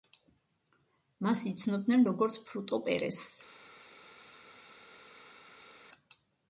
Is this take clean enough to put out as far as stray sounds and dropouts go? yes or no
yes